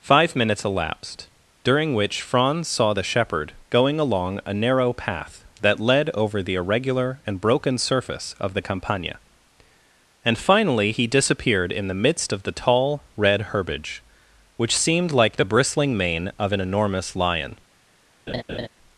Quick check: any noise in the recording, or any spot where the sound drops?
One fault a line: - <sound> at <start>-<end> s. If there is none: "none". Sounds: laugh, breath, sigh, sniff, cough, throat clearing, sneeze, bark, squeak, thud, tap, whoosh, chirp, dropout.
- laugh at 18.3-18.7 s